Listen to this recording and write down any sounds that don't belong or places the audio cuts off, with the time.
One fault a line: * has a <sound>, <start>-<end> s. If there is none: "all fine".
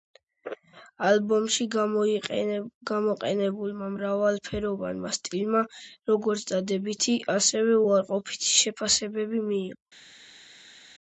all fine